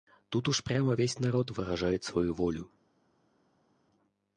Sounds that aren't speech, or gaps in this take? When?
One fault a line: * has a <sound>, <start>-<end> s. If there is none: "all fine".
all fine